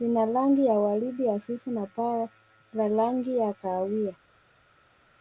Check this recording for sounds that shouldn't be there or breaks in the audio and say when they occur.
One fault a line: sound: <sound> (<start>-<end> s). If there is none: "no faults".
no faults